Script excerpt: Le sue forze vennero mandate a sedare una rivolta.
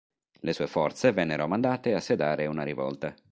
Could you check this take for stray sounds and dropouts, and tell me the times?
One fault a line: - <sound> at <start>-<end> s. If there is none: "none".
none